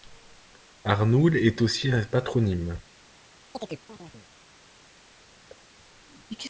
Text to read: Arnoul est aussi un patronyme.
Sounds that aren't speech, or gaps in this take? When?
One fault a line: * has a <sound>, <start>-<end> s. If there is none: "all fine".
* has a chirp, 3.5-4.3 s
* has a thud, 5.5-5.7 s